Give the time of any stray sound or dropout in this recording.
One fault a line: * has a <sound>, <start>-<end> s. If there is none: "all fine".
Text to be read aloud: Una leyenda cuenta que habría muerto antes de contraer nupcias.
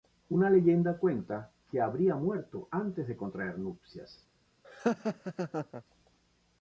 * has a laugh, 4.6-5.8 s